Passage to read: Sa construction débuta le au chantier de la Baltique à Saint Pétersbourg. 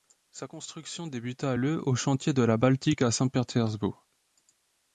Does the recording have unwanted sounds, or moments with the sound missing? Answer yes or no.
no